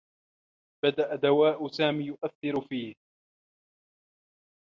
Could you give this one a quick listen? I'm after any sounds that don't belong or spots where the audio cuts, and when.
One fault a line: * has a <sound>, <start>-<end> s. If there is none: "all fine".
all fine